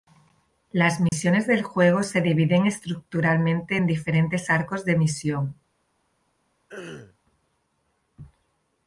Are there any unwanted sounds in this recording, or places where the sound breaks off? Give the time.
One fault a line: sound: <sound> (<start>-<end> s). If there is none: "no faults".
sound: dropout (1.1-1.1 s)
sound: throat clearing (6.7-7.2 s)